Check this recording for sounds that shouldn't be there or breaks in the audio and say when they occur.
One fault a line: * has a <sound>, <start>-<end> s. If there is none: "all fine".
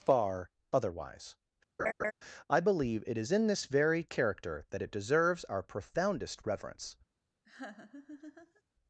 * has a laugh, 1.8-2.1 s
* has a laugh, 7.4-8.6 s